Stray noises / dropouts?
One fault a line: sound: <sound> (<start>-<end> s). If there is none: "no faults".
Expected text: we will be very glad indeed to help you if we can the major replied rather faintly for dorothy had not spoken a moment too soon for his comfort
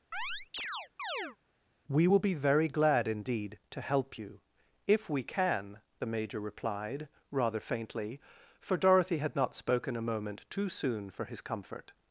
sound: chirp (0.1-1.4 s)